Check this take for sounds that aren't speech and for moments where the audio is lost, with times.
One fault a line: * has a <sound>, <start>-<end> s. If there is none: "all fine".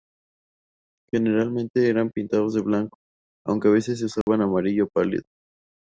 * has a dropout, 4.2-4.3 s